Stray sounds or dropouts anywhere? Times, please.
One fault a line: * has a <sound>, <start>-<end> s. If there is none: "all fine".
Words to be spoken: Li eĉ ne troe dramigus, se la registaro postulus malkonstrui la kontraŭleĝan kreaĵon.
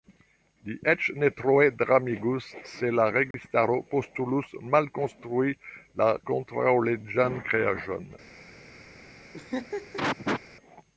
* has a dropout, 3.3-3.3 s
* has a laugh, 9.3-10.4 s